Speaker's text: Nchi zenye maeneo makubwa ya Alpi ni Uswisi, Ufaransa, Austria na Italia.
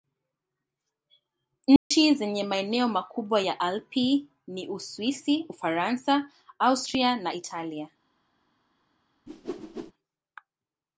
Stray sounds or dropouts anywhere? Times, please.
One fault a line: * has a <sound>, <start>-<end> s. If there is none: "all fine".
* has a dropout, 1.8-1.9 s
* has a whoosh, 9.3-9.9 s